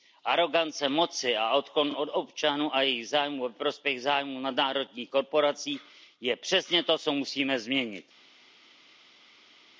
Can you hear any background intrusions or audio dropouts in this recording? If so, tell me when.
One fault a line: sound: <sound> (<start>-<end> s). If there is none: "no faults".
no faults